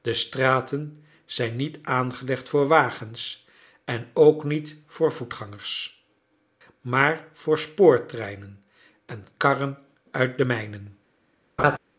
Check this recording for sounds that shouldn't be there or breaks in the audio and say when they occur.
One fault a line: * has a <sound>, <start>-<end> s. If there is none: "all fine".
* has a laugh, 11.6-11.8 s